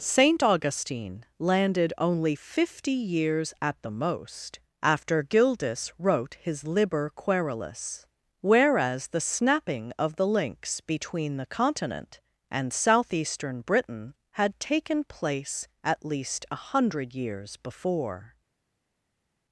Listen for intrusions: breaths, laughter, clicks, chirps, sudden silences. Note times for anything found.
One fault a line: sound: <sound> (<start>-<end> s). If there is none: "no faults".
no faults